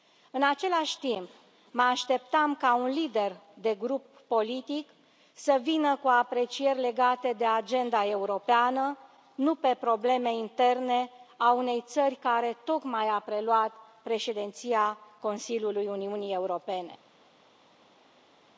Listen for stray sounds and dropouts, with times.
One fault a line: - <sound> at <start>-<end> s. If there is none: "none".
none